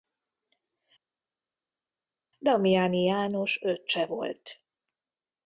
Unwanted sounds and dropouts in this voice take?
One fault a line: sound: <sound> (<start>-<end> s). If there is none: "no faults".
no faults